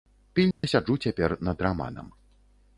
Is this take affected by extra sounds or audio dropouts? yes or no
yes